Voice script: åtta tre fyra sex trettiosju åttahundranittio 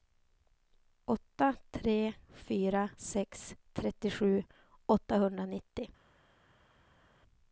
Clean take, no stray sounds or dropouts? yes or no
yes